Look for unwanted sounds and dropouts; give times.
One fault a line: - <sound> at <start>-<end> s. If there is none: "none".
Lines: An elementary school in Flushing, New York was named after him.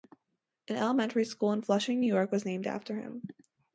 none